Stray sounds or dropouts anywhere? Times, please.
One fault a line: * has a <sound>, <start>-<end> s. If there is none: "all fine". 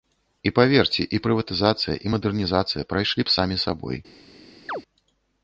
* has a chirp, 4.7-4.8 s